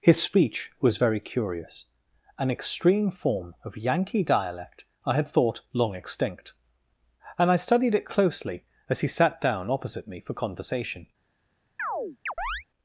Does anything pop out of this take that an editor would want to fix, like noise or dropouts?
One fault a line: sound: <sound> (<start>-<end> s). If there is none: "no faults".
sound: chirp (11.8-12.6 s)